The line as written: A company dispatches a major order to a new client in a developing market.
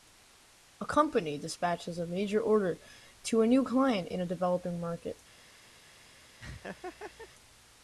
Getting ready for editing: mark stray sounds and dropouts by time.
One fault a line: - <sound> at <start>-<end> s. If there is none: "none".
- laugh at 6.4-7.3 s